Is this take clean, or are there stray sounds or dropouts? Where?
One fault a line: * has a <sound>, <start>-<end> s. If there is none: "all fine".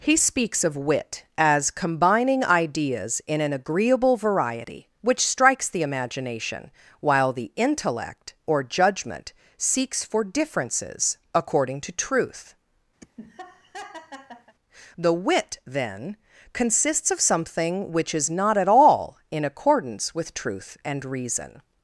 * has a laugh, 13.0-14.5 s